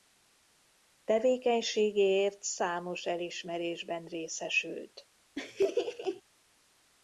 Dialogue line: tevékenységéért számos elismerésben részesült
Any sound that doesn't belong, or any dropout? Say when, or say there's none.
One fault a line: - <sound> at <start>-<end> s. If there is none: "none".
- laugh at 5.4-6.2 s